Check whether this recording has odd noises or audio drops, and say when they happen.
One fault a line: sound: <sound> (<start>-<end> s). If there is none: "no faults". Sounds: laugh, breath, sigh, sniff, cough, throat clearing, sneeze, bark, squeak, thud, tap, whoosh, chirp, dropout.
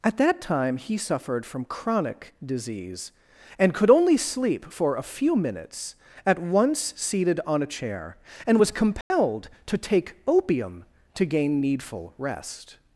sound: dropout (9.0-9.1 s)